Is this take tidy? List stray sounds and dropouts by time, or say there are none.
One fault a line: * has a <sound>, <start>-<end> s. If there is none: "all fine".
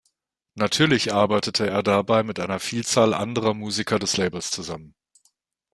all fine